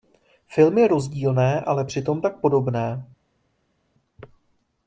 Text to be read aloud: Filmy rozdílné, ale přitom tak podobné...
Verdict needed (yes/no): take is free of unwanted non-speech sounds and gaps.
yes